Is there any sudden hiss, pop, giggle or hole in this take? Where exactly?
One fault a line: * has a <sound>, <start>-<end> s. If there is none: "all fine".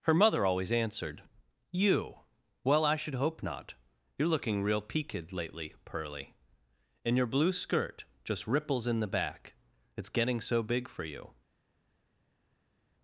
all fine